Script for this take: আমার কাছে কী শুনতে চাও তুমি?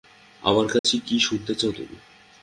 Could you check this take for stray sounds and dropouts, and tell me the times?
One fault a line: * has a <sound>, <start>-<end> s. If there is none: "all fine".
* has a dropout, 0.8-0.8 s